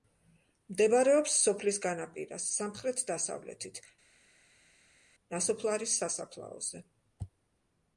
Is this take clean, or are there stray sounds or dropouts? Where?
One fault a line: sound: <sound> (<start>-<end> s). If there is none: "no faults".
no faults